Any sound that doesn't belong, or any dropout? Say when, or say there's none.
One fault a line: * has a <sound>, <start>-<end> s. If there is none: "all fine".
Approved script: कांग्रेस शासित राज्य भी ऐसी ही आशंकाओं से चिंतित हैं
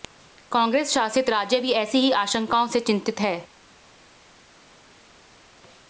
all fine